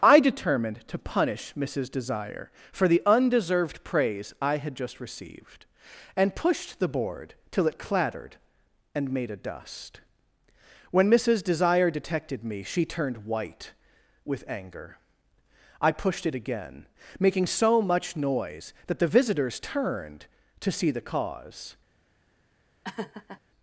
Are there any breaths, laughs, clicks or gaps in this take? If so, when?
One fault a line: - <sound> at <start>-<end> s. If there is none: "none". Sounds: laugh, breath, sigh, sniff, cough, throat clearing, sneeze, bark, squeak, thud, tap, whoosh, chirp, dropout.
- laugh at 22.8-23.4 s